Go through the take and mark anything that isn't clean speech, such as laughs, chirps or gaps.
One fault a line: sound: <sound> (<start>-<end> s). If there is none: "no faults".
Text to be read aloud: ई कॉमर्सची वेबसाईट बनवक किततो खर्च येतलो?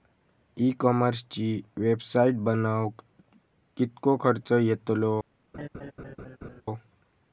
sound: laugh (5.5-6.6 s)